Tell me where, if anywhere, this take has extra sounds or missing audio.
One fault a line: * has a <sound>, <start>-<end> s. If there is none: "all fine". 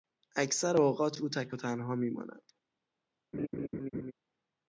* has a laugh, 3.3-4.1 s